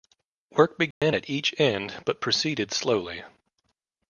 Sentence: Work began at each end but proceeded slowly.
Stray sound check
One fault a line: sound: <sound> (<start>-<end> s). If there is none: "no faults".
sound: dropout (0.9-1.0 s)